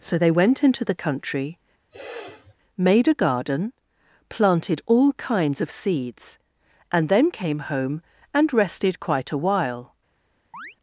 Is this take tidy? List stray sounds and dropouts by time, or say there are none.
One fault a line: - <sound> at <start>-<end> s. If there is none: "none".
- sniff at 1.9-2.6 s
- chirp at 10.5-10.8 s